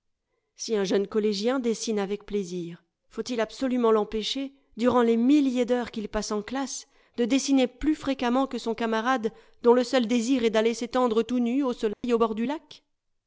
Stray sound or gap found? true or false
true